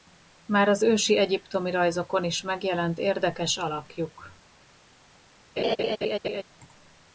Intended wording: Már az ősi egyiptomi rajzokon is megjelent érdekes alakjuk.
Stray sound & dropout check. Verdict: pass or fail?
fail